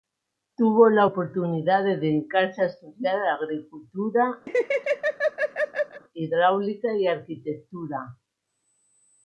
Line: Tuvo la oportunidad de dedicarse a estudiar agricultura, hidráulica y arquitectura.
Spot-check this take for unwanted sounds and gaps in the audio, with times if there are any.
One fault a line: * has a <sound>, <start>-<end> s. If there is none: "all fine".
* has a laugh, 4.5-6.0 s